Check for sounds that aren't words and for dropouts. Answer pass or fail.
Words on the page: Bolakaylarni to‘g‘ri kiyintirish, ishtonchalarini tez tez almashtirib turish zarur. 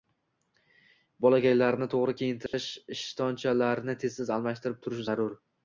fail